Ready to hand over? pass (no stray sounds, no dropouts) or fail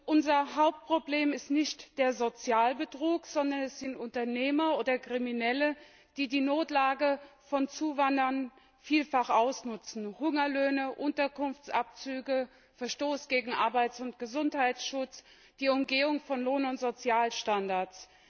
pass